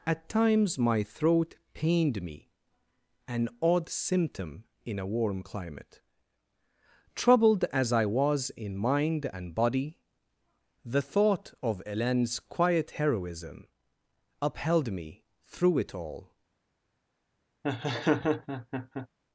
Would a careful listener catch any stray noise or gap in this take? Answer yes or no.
yes